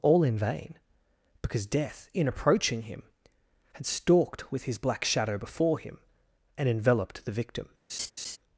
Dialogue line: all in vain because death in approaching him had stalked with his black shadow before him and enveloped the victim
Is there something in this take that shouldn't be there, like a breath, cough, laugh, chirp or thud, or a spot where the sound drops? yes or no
yes